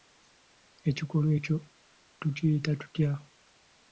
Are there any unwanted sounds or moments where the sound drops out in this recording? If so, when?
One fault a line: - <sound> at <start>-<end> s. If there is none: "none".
none